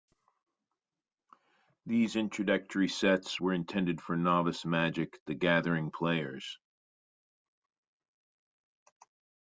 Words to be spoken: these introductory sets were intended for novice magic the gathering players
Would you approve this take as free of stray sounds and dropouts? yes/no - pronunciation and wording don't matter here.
yes